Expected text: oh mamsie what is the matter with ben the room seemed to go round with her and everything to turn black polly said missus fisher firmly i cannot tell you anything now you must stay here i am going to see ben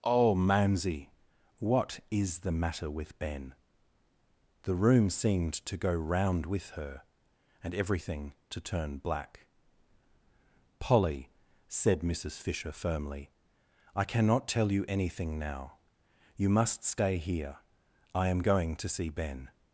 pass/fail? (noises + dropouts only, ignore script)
pass